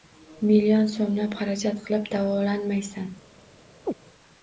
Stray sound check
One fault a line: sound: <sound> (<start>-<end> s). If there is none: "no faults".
sound: chirp (3.9-3.9 s)